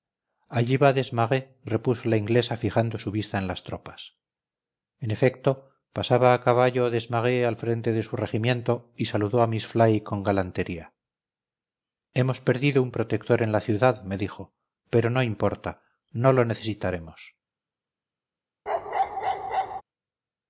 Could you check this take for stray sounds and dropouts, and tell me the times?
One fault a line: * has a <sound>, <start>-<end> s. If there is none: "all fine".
* has a bark, 18.7-19.8 s